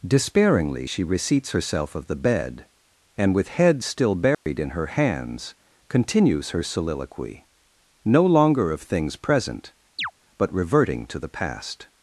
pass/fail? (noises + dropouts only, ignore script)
fail